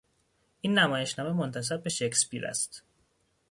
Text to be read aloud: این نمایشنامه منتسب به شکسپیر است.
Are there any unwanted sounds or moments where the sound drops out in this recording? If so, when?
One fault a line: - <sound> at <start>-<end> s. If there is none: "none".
none